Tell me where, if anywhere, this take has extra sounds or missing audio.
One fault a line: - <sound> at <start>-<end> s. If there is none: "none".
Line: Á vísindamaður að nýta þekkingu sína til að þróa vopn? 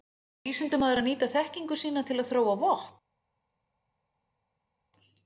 none